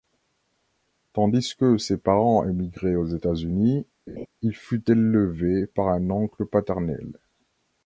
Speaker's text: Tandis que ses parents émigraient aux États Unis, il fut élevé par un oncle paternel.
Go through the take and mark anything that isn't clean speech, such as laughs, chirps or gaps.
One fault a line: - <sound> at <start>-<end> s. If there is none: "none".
- laugh at 4.1-4.3 s